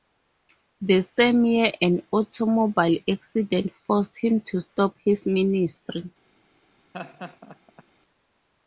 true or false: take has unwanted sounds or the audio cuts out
true